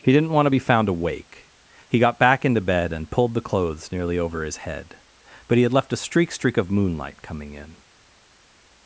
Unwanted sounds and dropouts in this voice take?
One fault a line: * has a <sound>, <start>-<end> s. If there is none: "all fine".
all fine